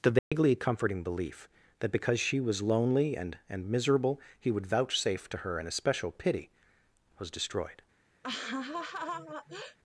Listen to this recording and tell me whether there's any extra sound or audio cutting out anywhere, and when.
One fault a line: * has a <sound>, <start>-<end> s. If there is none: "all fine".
* has a dropout, 0.2-0.3 s
* has a laugh, 8.2-9.8 s